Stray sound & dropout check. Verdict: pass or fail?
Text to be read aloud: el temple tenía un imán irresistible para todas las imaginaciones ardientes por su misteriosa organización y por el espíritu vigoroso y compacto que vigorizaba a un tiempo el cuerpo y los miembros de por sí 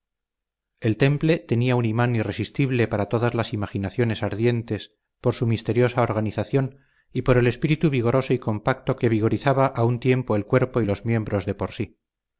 pass